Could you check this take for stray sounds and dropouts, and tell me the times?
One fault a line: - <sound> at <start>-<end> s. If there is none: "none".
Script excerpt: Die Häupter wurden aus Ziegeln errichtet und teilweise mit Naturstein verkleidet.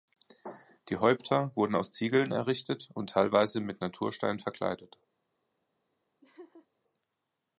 - laugh at 6.2-6.7 s